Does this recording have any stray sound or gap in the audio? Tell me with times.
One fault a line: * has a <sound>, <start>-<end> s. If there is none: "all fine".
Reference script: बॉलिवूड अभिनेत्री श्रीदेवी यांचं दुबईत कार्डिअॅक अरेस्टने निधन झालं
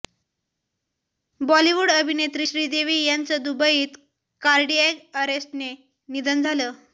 all fine